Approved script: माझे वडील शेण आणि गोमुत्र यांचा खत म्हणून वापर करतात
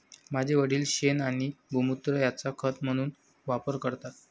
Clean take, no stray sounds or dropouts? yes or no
yes